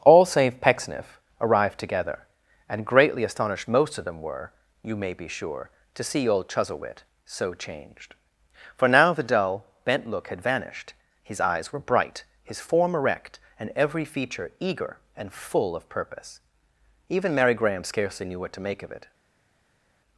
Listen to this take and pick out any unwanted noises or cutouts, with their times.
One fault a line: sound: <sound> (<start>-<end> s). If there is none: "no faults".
no faults